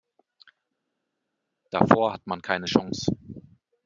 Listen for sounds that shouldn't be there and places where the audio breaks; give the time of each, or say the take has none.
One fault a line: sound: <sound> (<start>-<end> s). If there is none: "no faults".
no faults